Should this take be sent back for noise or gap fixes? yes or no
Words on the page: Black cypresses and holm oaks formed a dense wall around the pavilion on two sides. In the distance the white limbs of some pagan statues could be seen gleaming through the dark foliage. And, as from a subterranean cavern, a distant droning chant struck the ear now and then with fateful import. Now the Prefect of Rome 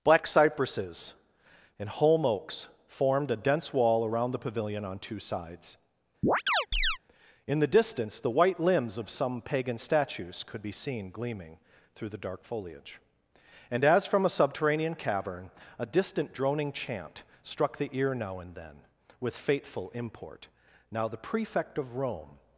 yes